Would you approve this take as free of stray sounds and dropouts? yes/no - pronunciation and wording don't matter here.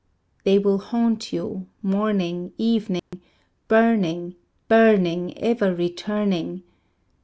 no